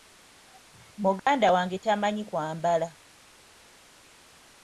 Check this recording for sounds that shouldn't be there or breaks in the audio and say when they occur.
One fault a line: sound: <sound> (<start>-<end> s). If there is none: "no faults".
sound: dropout (1.2-1.3 s)